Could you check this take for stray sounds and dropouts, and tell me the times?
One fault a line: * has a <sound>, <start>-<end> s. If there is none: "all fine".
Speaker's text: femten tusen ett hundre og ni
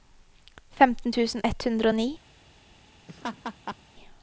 * has a laugh, 3.1-3.8 s